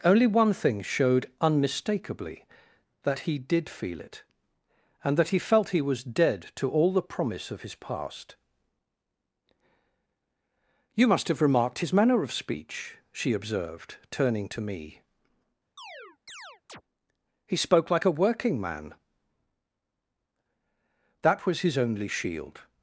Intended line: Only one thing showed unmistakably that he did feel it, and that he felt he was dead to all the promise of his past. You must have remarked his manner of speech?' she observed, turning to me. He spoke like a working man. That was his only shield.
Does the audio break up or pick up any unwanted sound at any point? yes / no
yes